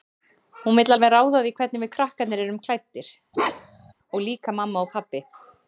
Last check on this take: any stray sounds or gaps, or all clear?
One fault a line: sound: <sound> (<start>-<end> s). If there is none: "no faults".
sound: bark (3.3-3.9 s)